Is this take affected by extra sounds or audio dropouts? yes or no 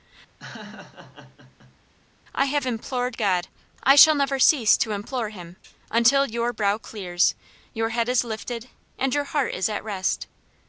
yes